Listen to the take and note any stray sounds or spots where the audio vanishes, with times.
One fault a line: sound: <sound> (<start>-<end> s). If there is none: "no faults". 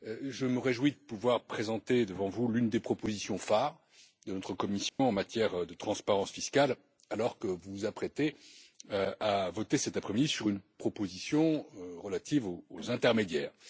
sound: dropout (4.9-5.0 s)